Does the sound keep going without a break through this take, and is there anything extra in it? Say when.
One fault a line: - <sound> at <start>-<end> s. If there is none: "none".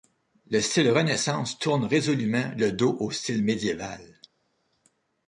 none